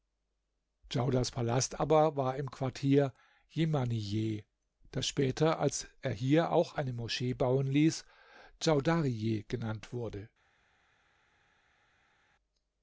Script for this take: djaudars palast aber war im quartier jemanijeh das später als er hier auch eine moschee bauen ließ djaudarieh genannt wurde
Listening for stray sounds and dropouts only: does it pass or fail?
pass